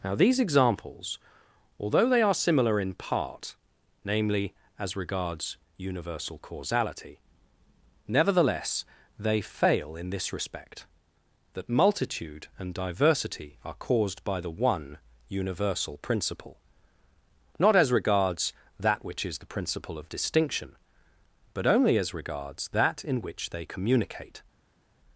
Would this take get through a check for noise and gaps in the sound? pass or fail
pass